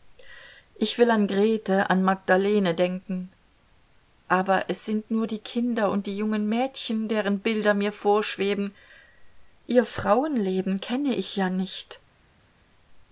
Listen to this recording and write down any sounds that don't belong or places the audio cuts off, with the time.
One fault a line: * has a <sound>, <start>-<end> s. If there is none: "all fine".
all fine